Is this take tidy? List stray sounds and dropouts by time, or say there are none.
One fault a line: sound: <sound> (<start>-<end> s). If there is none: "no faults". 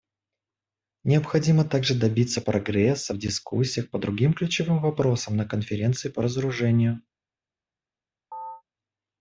sound: chirp (8.3-8.6 s)